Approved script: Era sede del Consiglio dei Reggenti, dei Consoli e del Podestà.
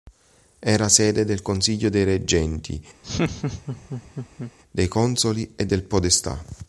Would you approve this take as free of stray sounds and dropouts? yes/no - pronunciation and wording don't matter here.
no